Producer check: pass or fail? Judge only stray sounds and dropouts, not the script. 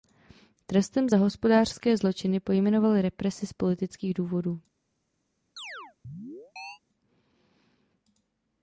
fail